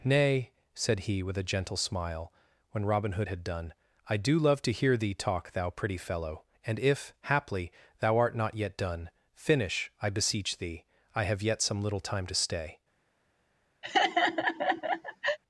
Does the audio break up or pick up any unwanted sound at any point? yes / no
yes